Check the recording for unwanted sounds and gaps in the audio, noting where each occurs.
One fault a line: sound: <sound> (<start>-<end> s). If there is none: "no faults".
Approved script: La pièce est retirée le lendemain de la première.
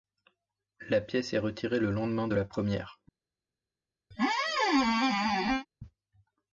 sound: squeak (4.1-5.7 s)